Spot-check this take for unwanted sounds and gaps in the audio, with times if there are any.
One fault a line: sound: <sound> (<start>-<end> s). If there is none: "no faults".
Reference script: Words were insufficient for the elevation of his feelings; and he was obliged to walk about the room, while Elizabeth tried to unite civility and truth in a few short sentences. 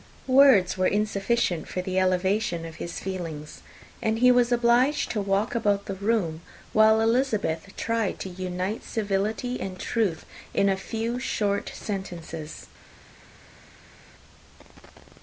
no faults